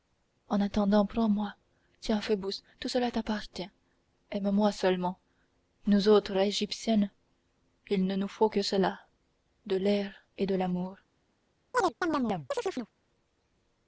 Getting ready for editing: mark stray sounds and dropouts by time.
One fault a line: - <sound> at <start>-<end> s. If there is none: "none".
- chirp at 11.7-12.9 s